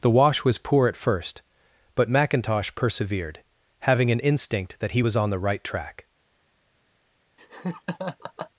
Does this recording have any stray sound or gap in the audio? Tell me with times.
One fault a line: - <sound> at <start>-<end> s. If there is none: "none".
- laugh at 7.4-8.5 s